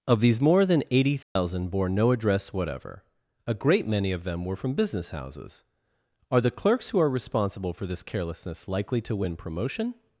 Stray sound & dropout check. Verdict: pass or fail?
fail